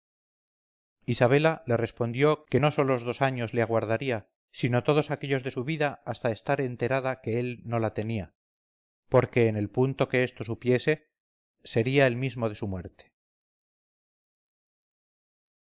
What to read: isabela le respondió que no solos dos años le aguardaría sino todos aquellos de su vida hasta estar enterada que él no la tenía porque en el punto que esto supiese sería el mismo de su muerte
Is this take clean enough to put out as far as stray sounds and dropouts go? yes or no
yes